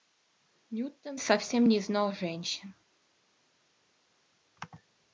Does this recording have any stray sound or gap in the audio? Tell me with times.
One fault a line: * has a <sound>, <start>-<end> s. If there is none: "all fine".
all fine